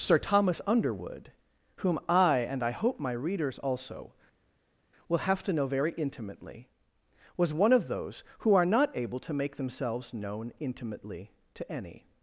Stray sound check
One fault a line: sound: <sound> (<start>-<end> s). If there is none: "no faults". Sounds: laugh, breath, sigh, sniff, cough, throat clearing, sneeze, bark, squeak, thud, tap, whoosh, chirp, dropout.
no faults